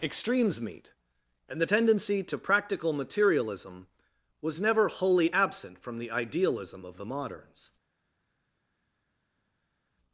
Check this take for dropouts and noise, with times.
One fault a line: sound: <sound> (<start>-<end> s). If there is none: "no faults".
no faults